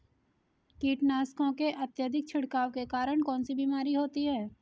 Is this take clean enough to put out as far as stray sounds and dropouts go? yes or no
yes